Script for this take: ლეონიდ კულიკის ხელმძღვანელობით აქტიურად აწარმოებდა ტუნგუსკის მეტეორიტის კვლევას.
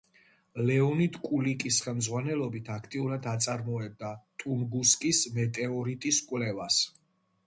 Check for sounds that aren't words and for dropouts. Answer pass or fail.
pass